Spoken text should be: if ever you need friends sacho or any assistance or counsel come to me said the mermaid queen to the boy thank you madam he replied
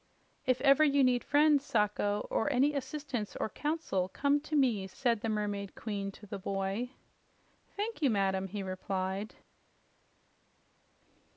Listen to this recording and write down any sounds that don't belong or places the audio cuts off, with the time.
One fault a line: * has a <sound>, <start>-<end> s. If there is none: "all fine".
all fine